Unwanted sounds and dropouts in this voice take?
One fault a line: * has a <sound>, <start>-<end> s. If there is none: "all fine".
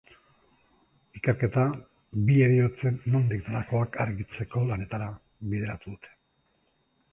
all fine